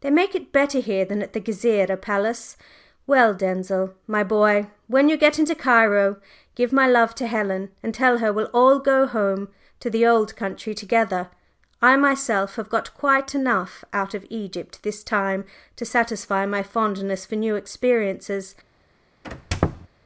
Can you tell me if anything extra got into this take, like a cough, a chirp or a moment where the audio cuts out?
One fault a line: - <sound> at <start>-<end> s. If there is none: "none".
- squeak at 19.2-19.9 s